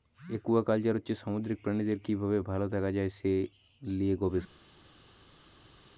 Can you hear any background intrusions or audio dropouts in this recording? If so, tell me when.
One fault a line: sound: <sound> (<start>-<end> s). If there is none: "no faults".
no faults